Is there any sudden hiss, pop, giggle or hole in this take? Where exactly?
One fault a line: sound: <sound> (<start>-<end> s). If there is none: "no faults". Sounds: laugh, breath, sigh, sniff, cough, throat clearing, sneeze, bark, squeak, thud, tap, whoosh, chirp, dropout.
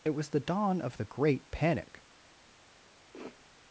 sound: sniff (3.1-3.4 s)